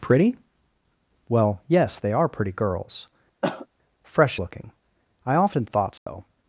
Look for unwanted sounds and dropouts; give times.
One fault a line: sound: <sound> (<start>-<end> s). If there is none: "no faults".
sound: cough (3.4-3.7 s)
sound: dropout (6.0-6.1 s)